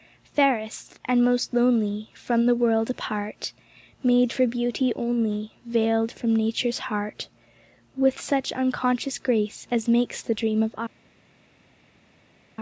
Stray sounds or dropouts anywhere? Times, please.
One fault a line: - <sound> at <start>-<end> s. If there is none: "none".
none